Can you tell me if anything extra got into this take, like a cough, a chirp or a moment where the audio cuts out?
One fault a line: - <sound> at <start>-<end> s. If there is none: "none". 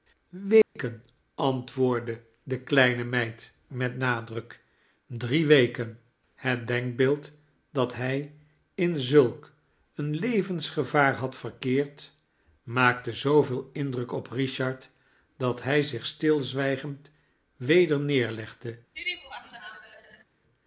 - dropout at 0.6-0.8 s
- laugh at 18.9-20.2 s